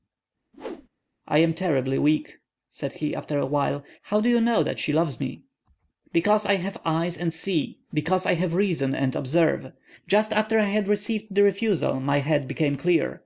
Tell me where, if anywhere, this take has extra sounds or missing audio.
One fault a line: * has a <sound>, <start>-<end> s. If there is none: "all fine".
* has a whoosh, 0.5-0.9 s